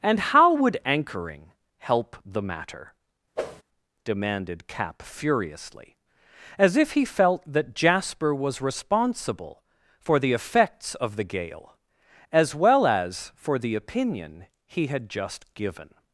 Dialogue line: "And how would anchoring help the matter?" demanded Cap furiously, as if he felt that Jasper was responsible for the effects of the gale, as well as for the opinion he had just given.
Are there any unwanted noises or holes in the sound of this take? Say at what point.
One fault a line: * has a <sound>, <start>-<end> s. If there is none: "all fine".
* has a whoosh, 3.4-3.6 s